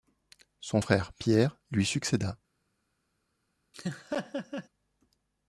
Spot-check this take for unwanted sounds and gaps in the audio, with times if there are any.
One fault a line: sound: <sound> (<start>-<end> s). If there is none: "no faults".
sound: laugh (3.7-4.7 s)